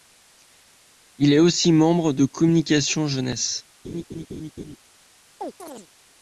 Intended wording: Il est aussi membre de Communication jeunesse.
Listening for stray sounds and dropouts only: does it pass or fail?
fail